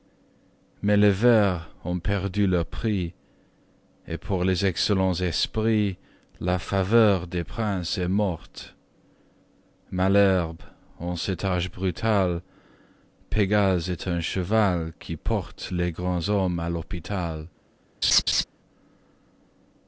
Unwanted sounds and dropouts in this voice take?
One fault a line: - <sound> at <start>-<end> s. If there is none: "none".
- laugh at 18.0-18.4 s